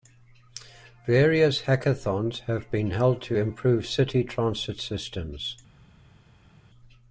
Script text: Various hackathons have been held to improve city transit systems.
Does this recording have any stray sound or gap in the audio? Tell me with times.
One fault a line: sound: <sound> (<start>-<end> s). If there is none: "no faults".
no faults